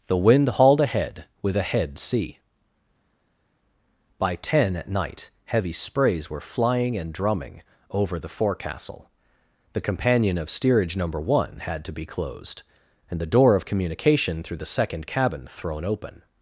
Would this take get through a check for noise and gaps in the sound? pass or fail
pass